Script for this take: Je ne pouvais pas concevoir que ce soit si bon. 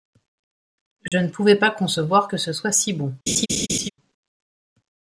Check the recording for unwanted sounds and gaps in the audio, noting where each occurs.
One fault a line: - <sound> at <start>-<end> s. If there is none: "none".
- dropout at 1.1-1.1 s
- laugh at 3.3-3.9 s